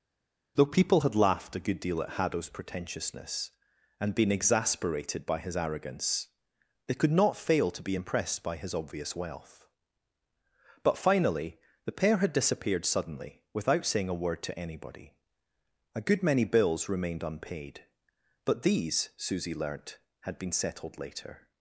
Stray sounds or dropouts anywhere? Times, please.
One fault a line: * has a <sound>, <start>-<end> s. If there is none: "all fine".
all fine